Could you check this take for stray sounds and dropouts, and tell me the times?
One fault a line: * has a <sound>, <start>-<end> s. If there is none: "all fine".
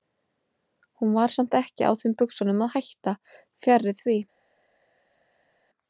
all fine